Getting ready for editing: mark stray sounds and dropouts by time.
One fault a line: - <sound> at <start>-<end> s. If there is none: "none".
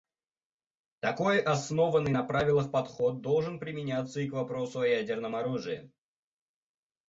none